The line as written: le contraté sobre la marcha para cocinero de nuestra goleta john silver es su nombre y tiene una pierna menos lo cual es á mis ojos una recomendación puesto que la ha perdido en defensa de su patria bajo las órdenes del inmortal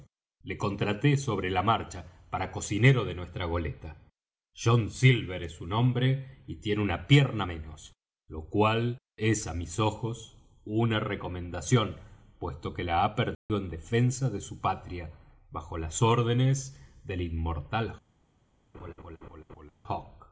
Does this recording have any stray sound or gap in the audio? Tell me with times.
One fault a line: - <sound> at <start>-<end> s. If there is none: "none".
- dropout at 13.3-13.5 s
- laugh at 18.7-19.7 s